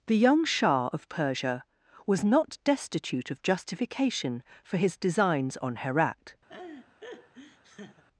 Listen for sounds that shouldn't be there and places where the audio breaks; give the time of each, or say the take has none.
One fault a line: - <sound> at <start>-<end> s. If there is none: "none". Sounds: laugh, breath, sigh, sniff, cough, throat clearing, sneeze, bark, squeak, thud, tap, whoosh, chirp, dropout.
- laugh at 6.5-8.0 s